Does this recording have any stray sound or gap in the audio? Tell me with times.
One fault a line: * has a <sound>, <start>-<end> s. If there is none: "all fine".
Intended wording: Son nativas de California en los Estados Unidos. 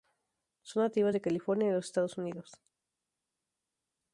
all fine